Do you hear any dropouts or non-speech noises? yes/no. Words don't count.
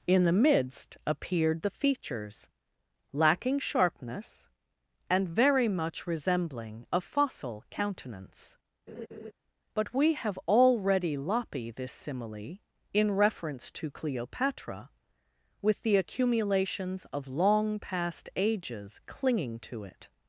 yes